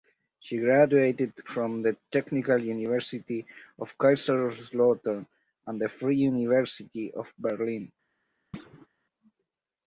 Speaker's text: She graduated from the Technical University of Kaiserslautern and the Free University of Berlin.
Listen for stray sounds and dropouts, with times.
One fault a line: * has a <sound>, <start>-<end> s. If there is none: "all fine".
* has a thud, 8.5-8.9 s